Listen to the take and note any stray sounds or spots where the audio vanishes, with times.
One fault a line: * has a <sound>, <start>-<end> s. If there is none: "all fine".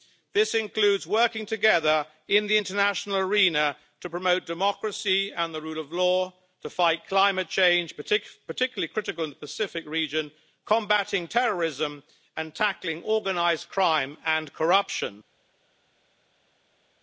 all fine